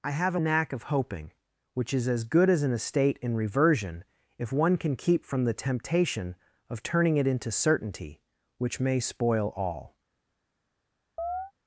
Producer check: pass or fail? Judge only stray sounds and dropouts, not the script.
fail